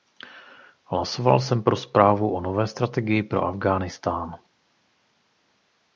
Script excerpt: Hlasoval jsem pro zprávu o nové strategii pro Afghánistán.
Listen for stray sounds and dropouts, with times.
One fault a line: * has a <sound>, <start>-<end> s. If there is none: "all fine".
all fine